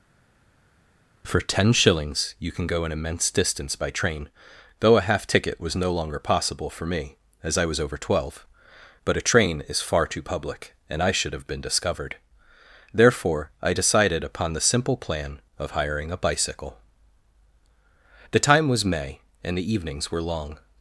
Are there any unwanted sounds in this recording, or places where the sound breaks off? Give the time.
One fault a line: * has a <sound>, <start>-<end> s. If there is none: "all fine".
all fine